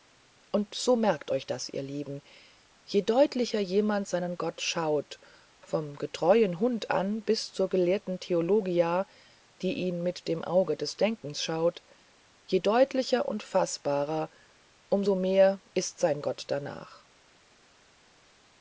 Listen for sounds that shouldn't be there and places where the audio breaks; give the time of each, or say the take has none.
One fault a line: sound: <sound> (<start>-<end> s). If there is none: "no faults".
no faults